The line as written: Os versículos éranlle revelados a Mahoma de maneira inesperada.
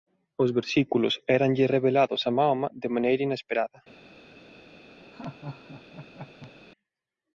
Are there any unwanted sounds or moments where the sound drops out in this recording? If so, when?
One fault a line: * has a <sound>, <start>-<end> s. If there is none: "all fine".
* has a laugh, 5.1-6.5 s